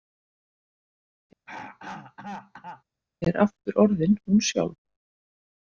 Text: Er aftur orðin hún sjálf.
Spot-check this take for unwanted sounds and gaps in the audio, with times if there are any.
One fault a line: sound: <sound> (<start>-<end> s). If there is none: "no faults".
sound: throat clearing (1.5-2.8 s)